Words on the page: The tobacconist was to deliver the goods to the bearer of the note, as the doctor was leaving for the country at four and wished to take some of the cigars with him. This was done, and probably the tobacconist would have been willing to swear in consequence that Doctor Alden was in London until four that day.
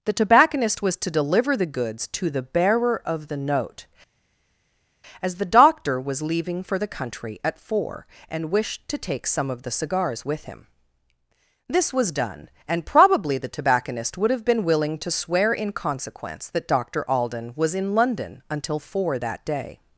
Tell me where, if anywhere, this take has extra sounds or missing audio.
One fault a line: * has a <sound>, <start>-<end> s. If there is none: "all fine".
all fine